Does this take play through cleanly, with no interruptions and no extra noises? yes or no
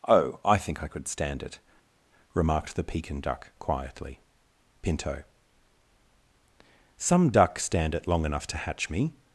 yes